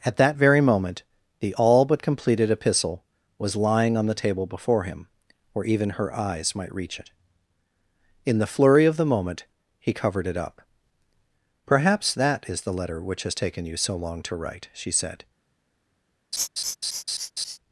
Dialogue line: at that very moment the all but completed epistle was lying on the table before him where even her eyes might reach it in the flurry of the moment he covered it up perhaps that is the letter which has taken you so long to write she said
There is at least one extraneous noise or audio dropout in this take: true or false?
true